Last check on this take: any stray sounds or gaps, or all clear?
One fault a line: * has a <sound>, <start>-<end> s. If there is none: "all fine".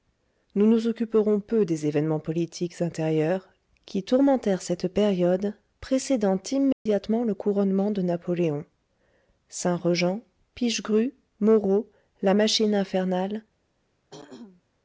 * has a dropout, 6.7-6.9 s
* has a throat clearing, 14.1-14.6 s